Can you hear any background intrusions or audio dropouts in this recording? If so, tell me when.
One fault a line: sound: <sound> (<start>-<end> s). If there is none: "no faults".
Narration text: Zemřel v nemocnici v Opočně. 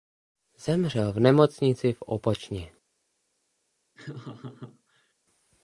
sound: laugh (3.9-5.1 s)